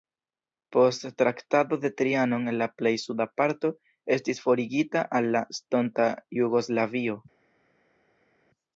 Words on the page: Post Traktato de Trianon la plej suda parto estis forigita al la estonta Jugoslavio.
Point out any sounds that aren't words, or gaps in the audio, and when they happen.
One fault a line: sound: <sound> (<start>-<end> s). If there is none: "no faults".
no faults